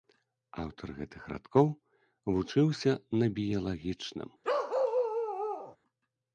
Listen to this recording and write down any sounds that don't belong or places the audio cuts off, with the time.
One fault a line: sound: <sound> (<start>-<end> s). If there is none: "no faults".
sound: bark (4.4-5.8 s)